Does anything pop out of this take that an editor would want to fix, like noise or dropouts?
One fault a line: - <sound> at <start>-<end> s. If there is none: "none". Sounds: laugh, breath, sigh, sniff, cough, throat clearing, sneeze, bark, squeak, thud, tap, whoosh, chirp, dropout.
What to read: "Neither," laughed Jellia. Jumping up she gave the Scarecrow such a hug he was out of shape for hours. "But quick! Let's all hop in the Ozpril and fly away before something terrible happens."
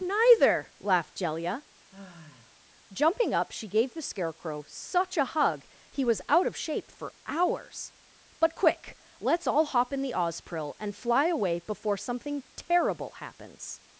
- sigh at 1.9-2.6 s